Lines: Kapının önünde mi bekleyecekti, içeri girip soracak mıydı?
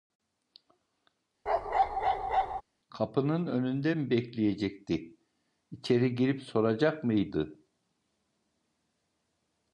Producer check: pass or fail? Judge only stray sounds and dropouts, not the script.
fail